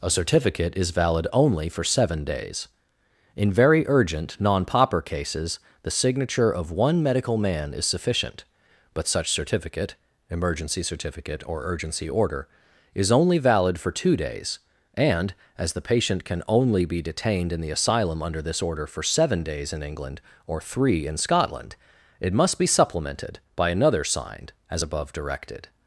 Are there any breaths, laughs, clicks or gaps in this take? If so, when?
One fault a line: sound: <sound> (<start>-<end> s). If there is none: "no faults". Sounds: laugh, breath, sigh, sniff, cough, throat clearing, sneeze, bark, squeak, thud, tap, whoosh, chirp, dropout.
no faults